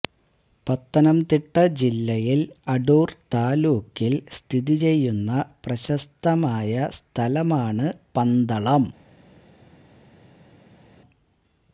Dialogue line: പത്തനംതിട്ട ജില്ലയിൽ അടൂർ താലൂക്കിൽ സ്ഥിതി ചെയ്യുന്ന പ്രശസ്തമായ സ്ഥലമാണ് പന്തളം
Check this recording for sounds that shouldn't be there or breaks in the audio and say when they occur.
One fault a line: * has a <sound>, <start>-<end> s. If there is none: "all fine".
all fine